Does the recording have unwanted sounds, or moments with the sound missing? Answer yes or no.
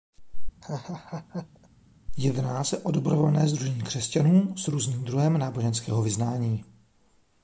yes